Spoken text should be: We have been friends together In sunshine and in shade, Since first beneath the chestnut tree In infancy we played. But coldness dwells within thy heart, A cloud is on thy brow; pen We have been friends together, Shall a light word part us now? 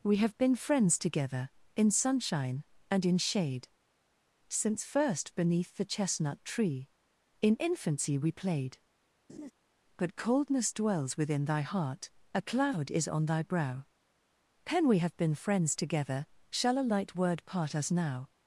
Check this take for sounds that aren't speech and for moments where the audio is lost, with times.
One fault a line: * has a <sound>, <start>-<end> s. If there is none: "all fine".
* has a laugh, 9.3-9.5 s